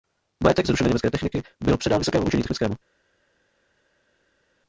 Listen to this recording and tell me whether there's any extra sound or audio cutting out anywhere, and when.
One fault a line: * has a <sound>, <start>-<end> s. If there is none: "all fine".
all fine